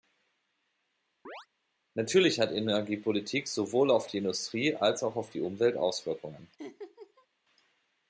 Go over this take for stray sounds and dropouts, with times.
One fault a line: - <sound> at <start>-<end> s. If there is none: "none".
- chirp at 1.3-1.5 s
- laugh at 6.6-7.3 s